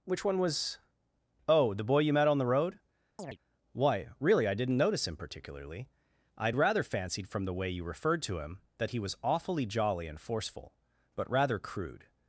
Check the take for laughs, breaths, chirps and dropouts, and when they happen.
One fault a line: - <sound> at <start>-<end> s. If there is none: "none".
- chirp at 3.2-3.4 s